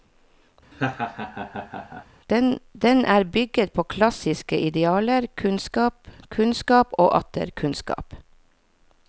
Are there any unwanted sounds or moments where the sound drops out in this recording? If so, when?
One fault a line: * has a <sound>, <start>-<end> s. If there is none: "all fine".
* has a laugh, 0.7-2.1 s